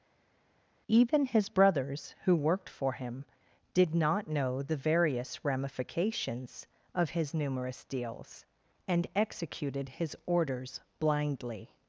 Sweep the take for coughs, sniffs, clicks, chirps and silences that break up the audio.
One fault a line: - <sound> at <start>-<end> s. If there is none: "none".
none